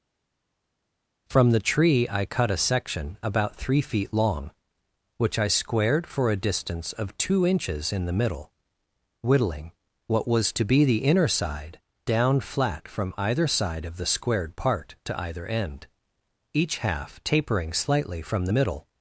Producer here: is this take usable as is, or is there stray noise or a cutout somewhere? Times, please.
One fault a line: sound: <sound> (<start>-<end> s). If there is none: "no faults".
no faults